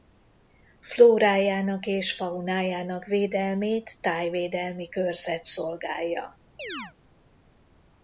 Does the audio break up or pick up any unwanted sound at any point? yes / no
yes